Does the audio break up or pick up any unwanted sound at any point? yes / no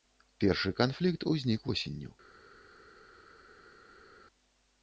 no